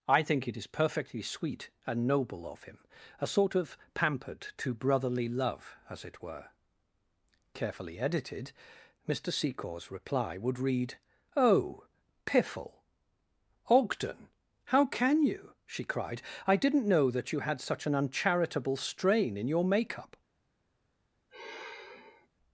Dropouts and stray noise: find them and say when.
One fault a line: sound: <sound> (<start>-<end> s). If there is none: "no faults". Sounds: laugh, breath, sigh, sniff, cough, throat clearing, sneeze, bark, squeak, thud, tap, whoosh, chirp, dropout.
sound: sigh (21.3-22.3 s)